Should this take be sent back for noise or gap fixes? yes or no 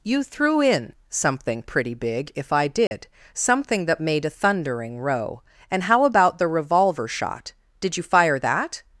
yes